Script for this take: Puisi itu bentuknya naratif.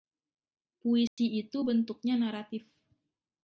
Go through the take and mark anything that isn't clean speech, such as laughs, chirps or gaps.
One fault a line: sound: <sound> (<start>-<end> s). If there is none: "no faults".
sound: dropout (1.1-1.2 s)